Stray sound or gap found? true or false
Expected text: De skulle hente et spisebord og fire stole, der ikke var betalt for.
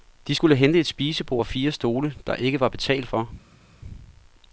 false